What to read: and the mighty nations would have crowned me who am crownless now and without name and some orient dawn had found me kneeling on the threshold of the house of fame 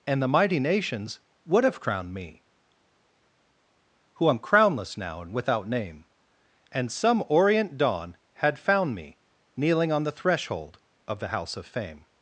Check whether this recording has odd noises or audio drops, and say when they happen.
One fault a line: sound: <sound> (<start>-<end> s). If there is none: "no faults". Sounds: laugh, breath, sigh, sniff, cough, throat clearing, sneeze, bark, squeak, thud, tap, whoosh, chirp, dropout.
no faults